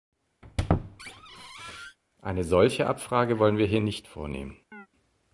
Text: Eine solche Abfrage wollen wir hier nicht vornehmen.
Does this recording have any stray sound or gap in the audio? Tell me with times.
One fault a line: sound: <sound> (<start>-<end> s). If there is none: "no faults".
sound: squeak (0.4-2.0 s)
sound: chirp (4.7-4.9 s)